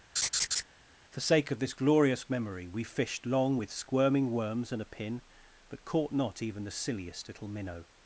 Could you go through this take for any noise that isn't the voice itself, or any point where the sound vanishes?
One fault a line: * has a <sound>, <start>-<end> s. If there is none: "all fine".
* has a laugh, 0.2-0.6 s